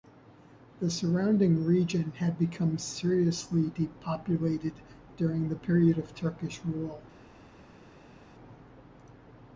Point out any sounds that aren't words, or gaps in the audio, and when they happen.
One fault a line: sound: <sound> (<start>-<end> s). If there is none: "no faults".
no faults